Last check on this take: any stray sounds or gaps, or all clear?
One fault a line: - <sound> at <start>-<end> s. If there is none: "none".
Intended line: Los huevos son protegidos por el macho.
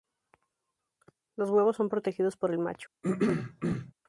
- throat clearing at 3.0-3.9 s